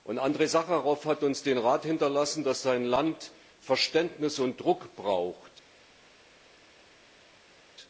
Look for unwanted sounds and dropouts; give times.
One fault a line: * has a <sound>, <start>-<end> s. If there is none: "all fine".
all fine